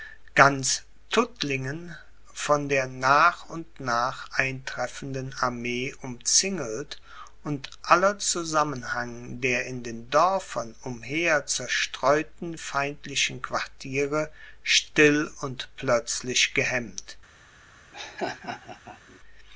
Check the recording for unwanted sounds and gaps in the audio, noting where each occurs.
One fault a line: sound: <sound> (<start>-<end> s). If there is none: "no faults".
sound: laugh (17.9-19.2 s)